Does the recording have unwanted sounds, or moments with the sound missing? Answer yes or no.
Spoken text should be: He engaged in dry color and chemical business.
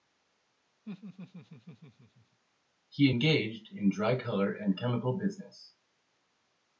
yes